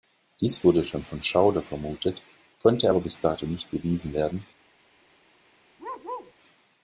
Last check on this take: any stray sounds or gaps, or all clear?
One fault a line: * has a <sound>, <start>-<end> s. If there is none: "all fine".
* has a bark, 5.8-6.3 s